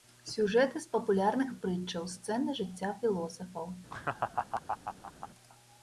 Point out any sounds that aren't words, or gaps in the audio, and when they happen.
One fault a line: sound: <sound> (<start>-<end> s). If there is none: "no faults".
sound: laugh (3.9-5.3 s)